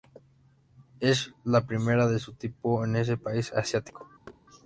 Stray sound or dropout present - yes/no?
yes